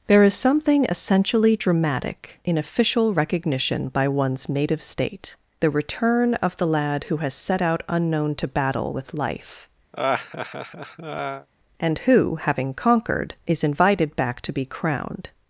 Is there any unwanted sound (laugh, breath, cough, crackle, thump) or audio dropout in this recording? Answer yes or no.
yes